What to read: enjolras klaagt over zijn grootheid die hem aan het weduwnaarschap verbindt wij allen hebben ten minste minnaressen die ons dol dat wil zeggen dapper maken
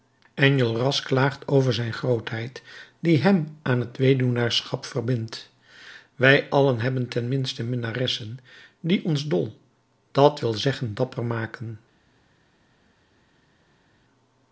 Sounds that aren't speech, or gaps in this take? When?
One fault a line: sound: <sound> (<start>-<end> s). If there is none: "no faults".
no faults